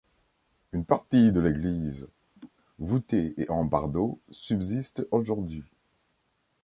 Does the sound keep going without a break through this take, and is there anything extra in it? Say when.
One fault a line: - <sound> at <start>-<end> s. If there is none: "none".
- laugh at 2.4-2.5 s